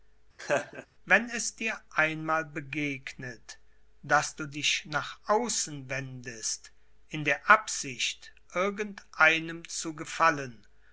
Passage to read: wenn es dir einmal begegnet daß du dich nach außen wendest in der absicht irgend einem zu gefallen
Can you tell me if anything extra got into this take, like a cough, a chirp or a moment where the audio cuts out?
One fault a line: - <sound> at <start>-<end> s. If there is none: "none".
- laugh at 0.4-0.9 s